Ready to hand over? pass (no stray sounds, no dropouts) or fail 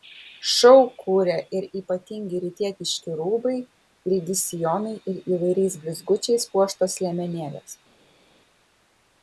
pass